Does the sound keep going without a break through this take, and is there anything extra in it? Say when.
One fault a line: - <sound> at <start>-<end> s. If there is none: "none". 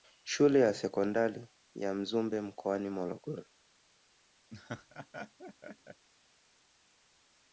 - laugh at 4.5-6.1 s